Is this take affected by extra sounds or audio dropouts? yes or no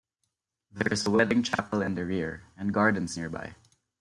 no